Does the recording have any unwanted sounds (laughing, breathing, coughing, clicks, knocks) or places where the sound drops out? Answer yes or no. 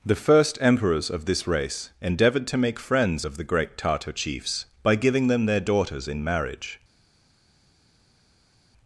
no